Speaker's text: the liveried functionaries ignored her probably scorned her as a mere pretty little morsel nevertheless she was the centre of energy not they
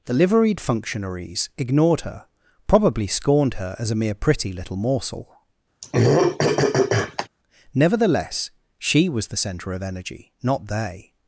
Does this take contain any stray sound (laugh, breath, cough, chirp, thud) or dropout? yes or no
yes